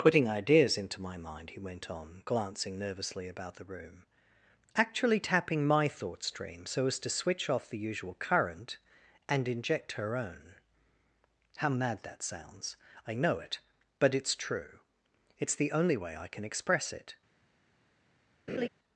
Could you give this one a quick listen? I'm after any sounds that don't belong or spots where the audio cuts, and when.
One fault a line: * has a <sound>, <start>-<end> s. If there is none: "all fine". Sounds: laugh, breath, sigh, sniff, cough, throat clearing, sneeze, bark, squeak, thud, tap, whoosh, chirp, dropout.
* has a laugh, 18.5-18.7 s